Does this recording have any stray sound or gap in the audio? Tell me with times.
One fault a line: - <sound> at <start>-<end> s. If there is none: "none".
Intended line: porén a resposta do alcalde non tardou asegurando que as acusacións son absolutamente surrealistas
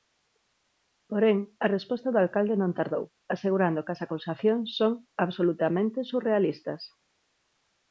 none